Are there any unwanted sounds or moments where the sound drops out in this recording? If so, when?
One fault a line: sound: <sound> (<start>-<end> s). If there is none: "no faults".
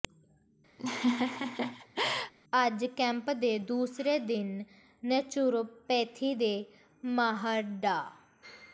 sound: laugh (0.8-2.3 s)